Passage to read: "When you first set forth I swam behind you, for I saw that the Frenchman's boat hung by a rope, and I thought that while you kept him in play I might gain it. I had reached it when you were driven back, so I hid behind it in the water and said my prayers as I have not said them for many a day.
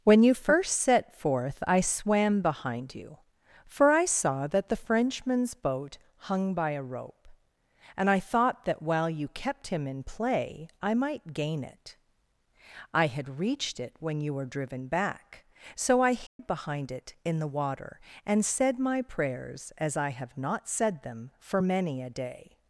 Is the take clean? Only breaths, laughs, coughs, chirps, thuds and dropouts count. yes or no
no